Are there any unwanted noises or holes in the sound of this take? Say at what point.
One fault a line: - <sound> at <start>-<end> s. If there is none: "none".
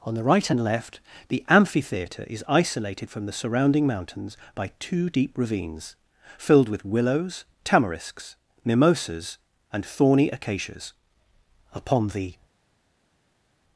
none